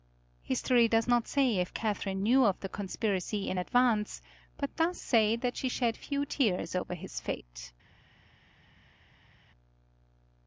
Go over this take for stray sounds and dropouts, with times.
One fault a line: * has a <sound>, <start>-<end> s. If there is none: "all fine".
all fine